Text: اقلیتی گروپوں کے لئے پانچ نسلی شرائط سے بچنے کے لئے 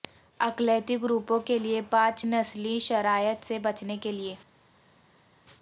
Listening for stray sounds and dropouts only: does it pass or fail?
pass